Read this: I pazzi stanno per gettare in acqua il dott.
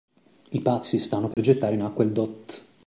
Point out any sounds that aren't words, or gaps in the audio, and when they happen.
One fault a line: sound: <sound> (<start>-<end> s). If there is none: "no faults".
sound: dropout (1.3-1.4 s)